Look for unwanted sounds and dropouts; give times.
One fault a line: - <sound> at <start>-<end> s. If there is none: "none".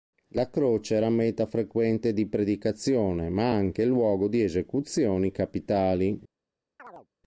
- chirp at 6.8-7.1 s